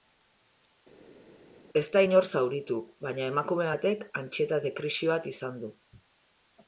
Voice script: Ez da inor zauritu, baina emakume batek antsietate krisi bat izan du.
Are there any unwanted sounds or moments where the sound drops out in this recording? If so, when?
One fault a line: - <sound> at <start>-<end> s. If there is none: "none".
none